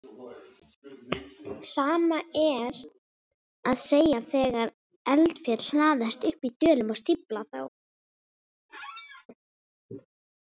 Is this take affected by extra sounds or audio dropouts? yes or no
yes